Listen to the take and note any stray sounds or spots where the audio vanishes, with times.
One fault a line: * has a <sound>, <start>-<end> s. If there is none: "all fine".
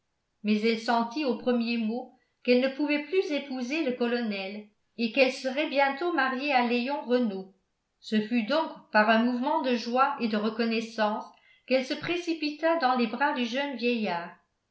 all fine